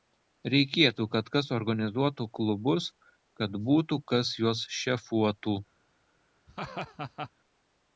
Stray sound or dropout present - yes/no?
yes